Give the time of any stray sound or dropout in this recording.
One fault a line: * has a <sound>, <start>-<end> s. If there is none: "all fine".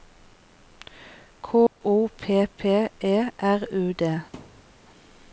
* has a dropout, 1.7-1.8 s
* has a thud, 4.3-4.8 s